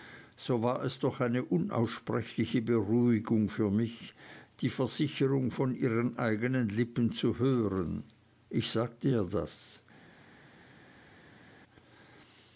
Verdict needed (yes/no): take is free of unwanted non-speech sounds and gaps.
yes